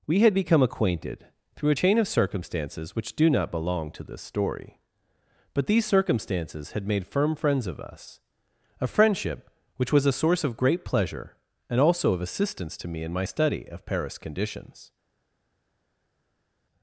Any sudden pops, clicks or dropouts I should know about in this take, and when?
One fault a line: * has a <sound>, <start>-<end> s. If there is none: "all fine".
all fine